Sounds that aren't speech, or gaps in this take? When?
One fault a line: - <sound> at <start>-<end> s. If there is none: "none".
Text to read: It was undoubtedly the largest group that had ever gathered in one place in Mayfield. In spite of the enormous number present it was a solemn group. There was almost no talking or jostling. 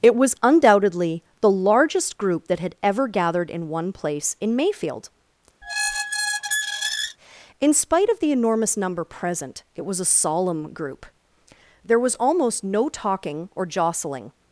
- squeak at 5.6-7.2 s